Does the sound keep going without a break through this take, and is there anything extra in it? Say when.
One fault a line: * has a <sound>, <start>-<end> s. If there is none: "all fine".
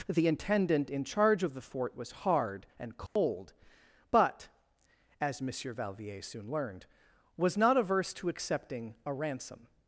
* has a dropout, 3.1-3.2 s